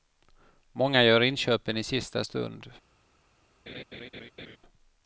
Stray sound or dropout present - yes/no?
yes